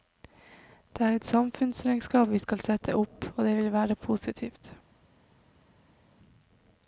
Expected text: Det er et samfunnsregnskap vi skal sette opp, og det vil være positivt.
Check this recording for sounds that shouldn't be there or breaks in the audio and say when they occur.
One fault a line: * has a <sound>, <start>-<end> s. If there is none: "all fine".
all fine